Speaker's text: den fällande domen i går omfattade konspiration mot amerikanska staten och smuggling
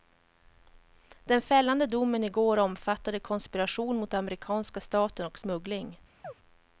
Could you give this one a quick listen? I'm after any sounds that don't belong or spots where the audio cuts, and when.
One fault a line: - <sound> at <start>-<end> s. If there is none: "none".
- chirp at 6.2-6.3 s